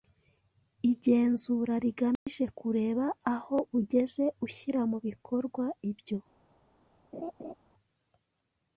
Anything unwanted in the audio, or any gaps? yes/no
yes